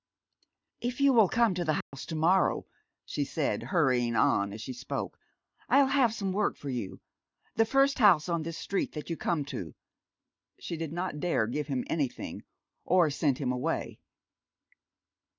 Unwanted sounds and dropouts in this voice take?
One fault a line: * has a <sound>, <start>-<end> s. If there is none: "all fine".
* has a dropout, 1.8-1.9 s